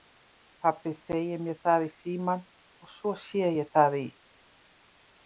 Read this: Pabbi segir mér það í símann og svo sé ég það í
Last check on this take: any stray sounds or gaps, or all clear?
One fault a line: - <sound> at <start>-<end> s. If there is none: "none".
none